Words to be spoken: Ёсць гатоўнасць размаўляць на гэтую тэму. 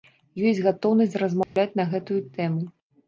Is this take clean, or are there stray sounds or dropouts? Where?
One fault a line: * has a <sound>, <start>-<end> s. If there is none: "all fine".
* has a dropout, 1.4-1.6 s